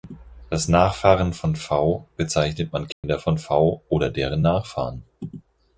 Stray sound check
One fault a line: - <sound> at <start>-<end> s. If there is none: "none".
- dropout at 2.9-3.0 s